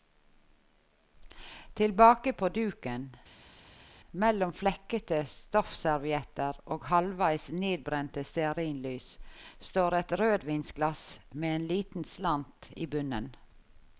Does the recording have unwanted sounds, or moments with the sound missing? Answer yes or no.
no